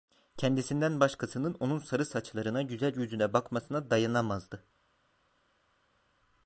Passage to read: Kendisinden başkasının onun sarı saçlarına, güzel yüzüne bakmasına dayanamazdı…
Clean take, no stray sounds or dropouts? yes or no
yes